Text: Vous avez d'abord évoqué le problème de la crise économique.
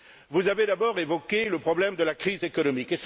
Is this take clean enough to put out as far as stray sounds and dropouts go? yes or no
yes